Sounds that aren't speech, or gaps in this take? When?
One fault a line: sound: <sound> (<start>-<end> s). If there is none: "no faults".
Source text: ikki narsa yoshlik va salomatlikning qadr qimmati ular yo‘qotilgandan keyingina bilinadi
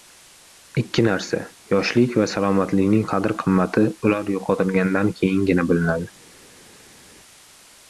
no faults